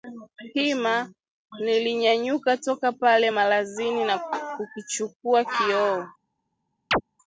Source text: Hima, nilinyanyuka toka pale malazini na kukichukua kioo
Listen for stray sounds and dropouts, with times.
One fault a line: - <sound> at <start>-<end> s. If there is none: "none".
- chirp at 6.9-7.0 s